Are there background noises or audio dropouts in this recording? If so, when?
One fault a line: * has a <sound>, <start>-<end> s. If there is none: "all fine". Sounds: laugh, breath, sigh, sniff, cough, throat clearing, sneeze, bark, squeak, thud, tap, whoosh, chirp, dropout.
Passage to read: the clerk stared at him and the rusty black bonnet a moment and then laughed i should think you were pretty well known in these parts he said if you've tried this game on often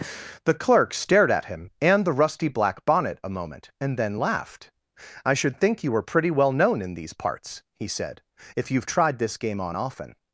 all fine